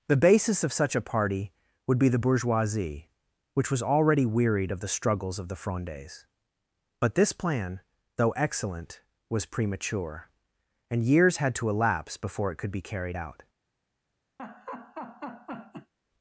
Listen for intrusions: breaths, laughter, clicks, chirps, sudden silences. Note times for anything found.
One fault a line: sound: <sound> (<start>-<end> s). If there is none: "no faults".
sound: laugh (14.4-15.9 s)